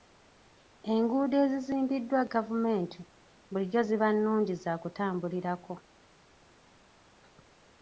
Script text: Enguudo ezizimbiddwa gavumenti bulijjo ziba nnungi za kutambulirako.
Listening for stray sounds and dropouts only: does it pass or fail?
pass